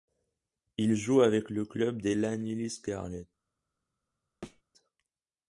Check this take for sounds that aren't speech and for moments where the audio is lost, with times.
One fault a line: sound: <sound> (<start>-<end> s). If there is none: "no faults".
sound: thud (4.4-4.6 s)